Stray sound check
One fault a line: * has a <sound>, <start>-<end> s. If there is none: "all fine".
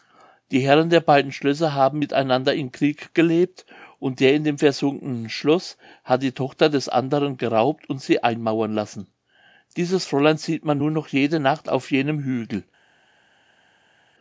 all fine